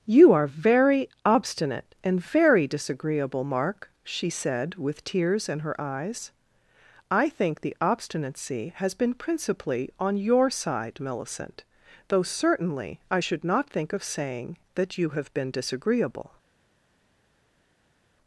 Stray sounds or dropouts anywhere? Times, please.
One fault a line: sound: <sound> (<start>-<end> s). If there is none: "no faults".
no faults